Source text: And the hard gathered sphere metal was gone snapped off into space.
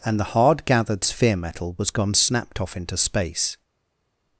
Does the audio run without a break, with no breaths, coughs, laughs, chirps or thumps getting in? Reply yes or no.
yes